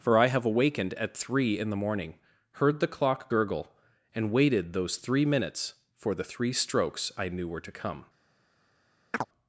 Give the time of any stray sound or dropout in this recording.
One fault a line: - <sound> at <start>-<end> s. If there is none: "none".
- chirp at 9.1-9.3 s